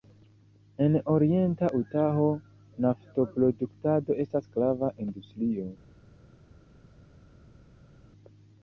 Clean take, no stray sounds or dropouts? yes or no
yes